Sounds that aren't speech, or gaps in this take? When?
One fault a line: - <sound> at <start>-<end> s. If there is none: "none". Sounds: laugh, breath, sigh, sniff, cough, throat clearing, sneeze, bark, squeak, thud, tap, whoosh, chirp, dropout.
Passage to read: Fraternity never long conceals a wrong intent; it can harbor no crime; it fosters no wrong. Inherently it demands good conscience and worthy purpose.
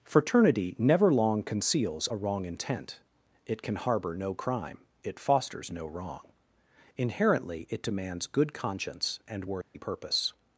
- dropout at 9.6-9.7 s